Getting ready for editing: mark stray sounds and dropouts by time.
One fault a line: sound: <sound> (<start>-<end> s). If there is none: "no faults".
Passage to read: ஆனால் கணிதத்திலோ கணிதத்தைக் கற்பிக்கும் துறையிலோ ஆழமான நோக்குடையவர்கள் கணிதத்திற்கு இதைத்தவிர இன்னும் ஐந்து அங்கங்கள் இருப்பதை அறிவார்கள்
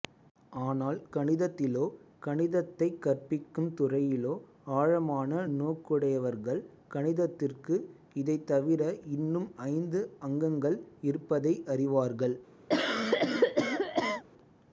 sound: cough (12.7-14.2 s)